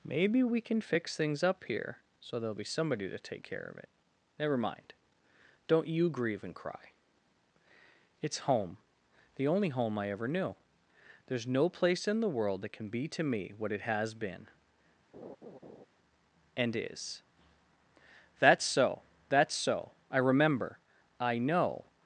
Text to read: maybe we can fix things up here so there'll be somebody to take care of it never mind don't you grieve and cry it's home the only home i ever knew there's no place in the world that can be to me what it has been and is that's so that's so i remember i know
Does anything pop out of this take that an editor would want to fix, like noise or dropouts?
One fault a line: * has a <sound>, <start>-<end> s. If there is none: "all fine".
* has a laugh, 15.1-15.9 s